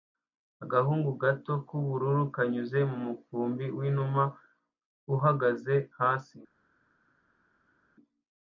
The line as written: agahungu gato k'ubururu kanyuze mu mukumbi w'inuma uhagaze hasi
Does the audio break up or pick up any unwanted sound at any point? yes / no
no